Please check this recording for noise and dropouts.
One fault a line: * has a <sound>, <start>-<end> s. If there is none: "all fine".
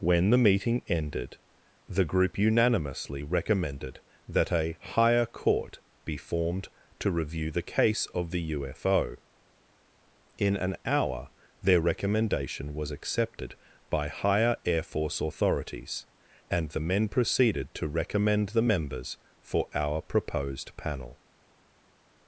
all fine